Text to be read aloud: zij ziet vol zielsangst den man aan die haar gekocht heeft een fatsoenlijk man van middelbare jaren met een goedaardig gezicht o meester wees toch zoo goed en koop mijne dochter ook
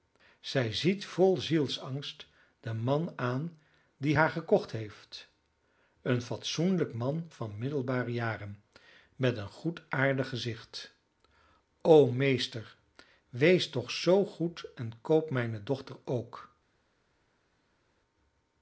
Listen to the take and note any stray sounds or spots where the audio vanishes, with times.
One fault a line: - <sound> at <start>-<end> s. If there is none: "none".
none